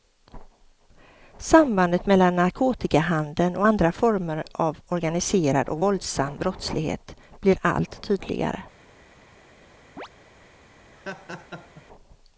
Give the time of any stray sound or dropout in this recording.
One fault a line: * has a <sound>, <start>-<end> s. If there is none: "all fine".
* has a chirp, 10.0-10.1 s
* has a laugh, 10.9-11.8 s